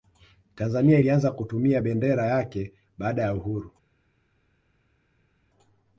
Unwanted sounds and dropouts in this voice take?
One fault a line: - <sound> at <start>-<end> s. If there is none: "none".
none